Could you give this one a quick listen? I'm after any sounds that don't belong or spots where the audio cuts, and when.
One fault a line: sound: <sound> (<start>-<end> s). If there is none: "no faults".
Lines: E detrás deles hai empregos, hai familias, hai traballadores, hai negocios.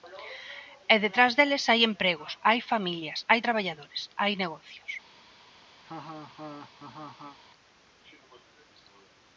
sound: laugh (5.8-7.4 s)